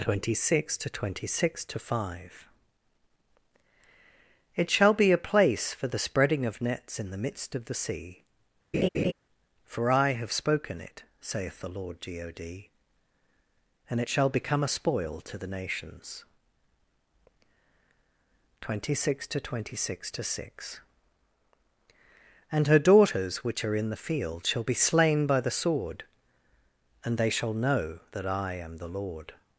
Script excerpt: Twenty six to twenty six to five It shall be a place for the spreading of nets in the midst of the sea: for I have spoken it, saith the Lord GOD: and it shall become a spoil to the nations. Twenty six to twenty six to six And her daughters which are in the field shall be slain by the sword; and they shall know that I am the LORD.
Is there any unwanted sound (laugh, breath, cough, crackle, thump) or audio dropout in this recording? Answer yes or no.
yes